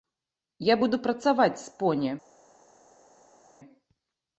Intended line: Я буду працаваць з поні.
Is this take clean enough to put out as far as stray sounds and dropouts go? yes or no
yes